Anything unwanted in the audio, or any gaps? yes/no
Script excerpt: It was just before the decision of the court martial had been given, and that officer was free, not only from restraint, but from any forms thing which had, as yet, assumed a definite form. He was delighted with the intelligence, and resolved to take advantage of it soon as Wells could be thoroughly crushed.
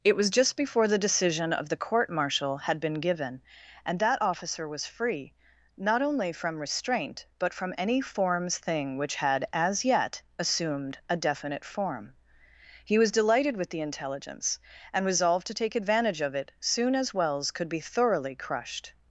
no